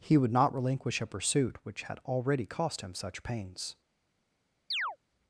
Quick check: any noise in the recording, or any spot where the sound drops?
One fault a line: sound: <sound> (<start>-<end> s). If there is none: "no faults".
sound: chirp (4.7-5.0 s)